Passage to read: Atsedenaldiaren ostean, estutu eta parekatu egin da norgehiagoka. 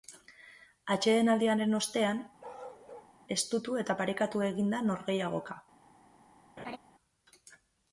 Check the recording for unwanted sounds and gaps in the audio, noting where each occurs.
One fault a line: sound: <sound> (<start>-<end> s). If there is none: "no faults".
sound: bark (2.4-3.1 s)
sound: laugh (6.6-6.8 s)